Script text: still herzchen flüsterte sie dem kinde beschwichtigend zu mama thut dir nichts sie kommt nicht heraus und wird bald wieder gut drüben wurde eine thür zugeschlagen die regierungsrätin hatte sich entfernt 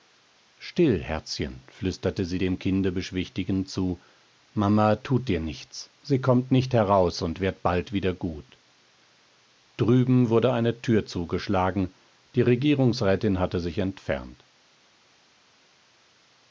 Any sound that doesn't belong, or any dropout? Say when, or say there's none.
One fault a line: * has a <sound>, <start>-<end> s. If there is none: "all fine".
all fine